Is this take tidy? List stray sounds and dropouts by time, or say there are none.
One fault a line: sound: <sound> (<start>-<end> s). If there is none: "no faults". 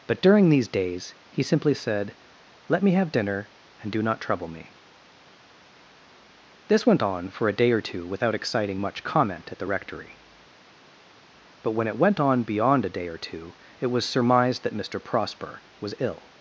no faults